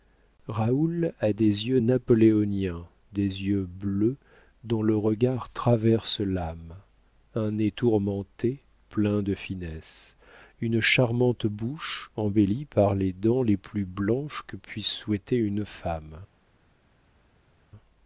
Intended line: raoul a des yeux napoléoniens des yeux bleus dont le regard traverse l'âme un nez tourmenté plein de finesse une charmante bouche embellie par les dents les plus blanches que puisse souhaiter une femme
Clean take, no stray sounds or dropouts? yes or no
yes